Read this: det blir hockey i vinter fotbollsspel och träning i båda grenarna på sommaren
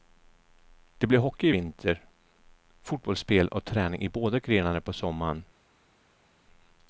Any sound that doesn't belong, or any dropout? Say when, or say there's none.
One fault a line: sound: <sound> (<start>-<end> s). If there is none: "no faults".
no faults